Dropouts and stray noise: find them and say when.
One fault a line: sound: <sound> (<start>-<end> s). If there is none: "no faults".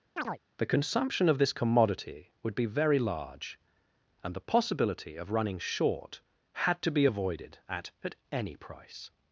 sound: chirp (0.2-0.4 s)